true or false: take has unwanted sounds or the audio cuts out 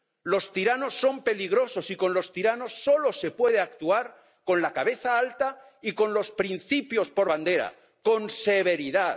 false